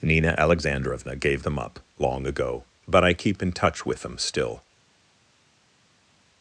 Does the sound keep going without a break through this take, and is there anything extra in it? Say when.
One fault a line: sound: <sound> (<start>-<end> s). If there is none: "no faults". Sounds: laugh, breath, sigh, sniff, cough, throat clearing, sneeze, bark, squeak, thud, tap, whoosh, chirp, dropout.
no faults